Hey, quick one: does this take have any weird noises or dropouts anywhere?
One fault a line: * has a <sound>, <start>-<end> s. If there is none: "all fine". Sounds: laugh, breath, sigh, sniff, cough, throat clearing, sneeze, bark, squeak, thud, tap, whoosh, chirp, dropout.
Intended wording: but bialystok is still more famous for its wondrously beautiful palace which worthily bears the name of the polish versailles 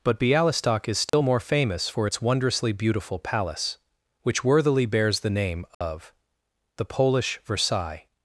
* has a dropout, 1.1-1.1 s
* has a dropout, 5.7-5.8 s